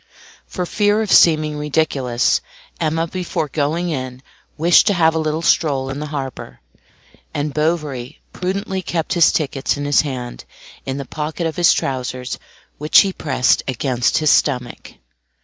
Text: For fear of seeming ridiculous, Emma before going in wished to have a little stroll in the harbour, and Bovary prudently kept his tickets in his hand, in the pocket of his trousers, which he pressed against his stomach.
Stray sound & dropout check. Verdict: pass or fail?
pass